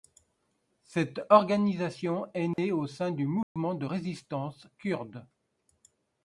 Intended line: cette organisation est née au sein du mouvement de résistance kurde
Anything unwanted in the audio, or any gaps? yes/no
yes